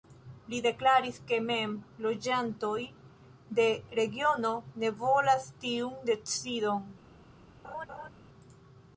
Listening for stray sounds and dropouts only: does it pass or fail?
fail